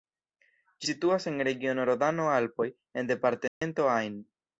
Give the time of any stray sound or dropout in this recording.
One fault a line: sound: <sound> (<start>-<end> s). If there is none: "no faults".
sound: dropout (3.5-3.6 s)